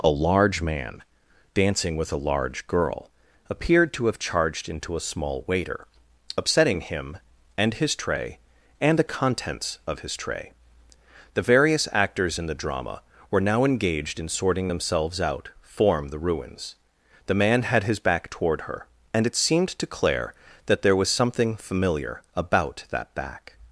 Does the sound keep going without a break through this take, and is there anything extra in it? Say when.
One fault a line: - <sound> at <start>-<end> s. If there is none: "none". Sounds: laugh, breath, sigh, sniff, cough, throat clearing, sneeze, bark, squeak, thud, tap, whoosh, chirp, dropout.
none